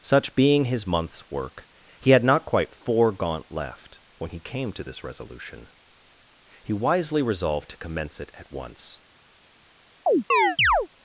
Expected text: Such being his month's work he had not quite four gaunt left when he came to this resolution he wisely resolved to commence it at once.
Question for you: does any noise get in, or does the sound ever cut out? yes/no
yes